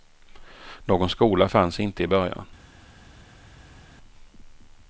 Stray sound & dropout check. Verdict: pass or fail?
pass